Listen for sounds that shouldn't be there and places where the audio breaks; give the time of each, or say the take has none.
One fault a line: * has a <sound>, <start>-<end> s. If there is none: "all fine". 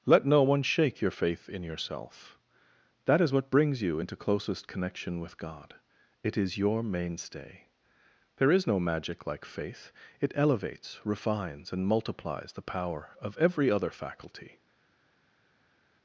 all fine